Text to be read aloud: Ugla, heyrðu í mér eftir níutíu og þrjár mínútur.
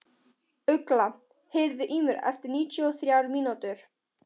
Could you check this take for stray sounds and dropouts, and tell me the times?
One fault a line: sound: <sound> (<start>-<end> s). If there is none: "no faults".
no faults